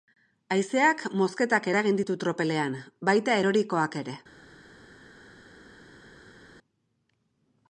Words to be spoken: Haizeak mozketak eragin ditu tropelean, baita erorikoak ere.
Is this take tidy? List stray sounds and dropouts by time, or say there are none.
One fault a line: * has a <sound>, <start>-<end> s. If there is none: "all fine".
all fine